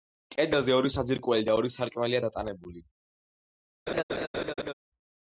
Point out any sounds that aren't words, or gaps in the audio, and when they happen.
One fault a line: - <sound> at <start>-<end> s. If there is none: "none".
- laugh at 3.9-4.7 s